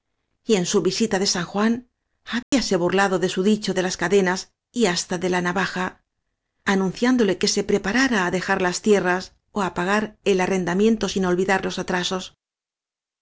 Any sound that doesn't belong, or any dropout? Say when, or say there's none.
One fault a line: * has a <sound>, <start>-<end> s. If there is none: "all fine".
* has a dropout, 2.4-2.5 s